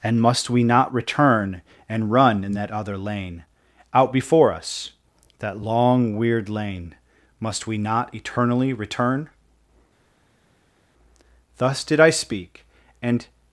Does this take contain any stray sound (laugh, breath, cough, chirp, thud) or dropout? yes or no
no